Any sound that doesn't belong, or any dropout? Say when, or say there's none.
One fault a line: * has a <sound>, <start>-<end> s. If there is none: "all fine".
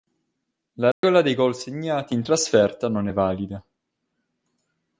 * has a dropout, 0.9-1.0 s